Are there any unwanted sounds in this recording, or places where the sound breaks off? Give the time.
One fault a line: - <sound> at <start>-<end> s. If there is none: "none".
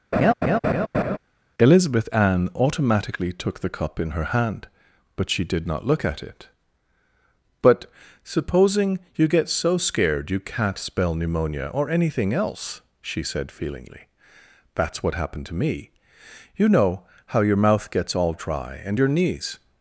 - laugh at 0.1-1.2 s